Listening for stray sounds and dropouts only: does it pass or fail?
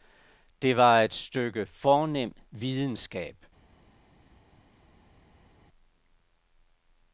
pass